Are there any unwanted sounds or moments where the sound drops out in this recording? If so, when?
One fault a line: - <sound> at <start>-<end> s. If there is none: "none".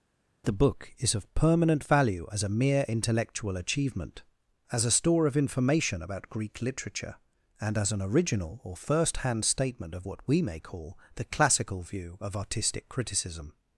none